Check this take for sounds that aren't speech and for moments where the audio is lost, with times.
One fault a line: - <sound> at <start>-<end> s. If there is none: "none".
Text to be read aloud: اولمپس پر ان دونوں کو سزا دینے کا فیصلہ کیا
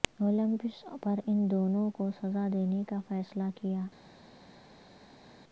none